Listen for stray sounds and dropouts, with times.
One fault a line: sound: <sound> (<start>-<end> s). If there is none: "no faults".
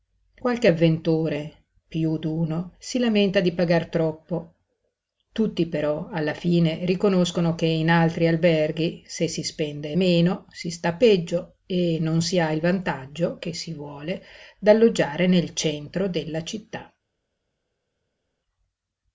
no faults